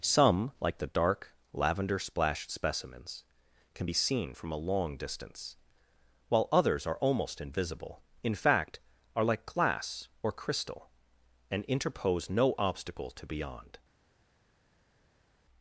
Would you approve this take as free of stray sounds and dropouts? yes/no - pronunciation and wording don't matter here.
yes